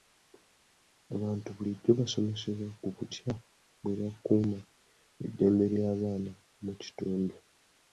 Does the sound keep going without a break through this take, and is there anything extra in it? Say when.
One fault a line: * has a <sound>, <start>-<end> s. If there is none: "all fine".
all fine